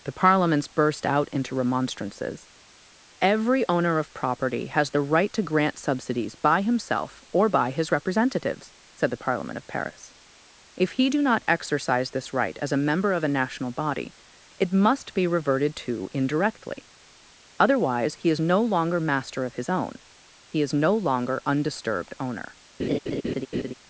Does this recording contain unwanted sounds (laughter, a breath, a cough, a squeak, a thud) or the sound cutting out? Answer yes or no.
yes